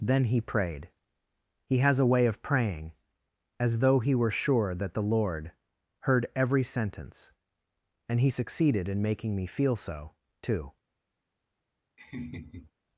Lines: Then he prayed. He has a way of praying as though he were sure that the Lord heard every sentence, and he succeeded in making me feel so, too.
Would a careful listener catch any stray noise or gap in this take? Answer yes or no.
yes